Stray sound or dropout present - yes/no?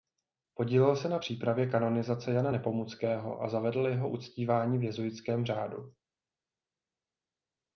no